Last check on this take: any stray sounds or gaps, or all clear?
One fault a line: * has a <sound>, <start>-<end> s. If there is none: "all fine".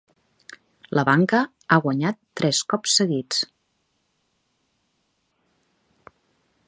all fine